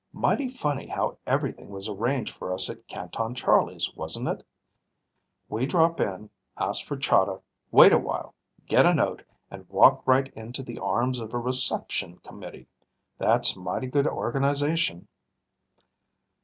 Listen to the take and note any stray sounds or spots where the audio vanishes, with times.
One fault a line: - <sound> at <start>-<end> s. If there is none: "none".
none